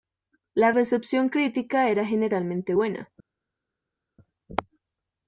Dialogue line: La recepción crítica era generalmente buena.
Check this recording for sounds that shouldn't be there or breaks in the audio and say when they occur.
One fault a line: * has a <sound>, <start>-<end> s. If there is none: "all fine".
all fine